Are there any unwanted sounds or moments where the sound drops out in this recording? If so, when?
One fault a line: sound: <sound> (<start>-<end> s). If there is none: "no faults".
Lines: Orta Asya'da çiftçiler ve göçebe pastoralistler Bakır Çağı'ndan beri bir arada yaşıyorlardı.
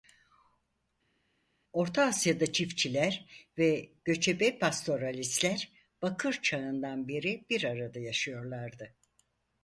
no faults